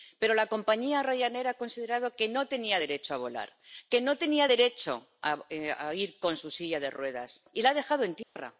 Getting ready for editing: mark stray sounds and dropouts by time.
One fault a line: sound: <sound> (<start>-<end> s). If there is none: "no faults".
sound: dropout (8.2-8.4 s)